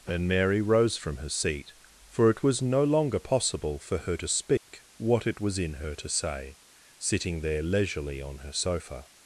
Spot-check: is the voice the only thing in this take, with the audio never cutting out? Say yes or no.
no